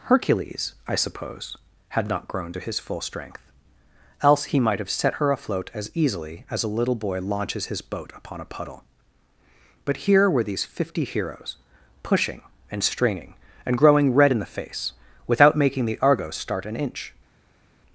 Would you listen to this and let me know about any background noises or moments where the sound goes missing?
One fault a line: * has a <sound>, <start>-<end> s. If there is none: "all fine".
all fine